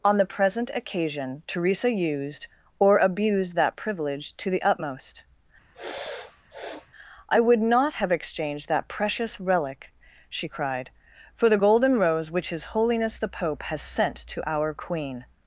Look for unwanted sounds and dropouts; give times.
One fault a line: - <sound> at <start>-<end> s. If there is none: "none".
- sniff at 5.7-6.9 s